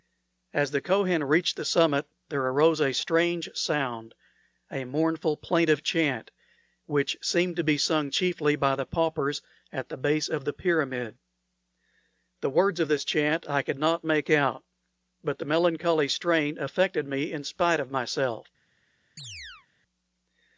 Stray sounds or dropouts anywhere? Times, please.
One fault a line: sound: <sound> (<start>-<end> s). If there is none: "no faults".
sound: chirp (19.2-19.7 s)